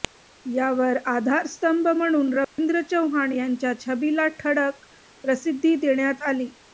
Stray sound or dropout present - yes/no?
yes